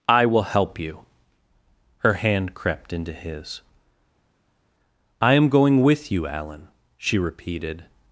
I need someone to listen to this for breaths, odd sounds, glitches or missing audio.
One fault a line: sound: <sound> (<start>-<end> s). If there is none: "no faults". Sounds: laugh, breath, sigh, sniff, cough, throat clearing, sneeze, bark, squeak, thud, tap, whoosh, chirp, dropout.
no faults